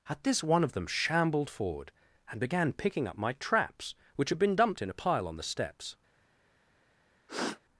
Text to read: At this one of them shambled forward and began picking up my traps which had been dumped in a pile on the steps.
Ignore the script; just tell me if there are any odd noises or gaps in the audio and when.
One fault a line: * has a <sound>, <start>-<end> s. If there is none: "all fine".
* has a sniff, 7.3-7.6 s